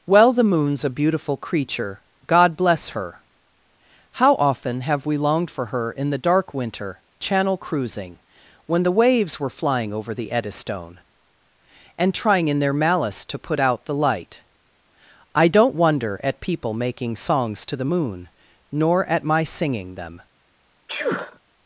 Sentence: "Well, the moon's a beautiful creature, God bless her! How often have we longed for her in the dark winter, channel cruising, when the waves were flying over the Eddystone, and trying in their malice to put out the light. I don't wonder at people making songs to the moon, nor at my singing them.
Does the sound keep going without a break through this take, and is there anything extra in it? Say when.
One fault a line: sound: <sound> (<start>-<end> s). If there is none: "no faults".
sound: sneeze (20.9-21.4 s)